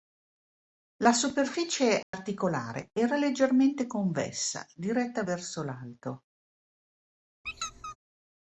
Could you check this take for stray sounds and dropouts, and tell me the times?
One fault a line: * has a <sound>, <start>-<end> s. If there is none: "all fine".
* has a dropout, 2.0-2.1 s
* has a squeak, 7.4-8.0 s